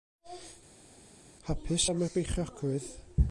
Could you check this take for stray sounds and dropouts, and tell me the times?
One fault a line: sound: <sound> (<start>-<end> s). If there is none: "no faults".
no faults